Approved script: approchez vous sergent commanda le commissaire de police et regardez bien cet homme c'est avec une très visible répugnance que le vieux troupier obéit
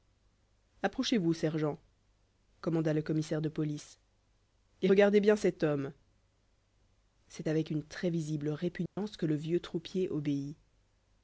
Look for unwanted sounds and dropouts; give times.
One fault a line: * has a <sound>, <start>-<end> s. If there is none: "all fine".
* has a dropout, 8.9-9.0 s